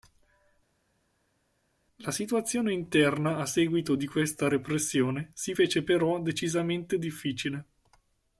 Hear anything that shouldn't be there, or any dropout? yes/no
no